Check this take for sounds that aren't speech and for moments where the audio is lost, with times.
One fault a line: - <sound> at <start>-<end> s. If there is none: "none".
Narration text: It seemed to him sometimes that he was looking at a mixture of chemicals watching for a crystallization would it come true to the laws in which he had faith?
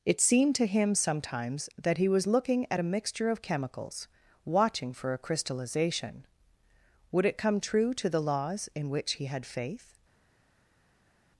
none